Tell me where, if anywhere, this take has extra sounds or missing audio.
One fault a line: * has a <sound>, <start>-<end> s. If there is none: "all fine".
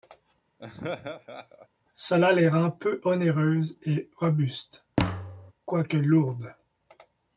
* has a laugh, 0.6-1.7 s
* has a thud, 5.0-5.5 s